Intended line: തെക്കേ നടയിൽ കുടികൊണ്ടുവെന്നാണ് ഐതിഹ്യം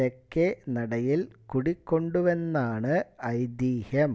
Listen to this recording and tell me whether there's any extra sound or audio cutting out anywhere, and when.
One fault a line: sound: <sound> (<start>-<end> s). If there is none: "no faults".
no faults